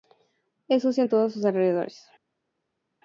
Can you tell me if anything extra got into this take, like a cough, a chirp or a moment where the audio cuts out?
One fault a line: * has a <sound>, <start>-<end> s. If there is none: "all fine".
all fine